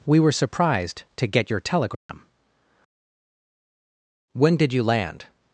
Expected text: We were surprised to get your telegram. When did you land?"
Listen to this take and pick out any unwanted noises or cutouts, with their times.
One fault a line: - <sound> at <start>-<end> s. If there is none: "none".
- dropout at 1.9-2.1 s